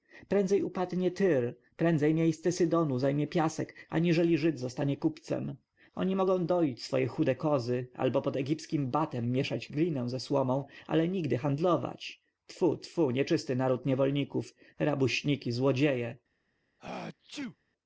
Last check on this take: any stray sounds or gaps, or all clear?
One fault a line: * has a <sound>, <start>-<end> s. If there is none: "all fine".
* has a sneeze, 16.8-17.6 s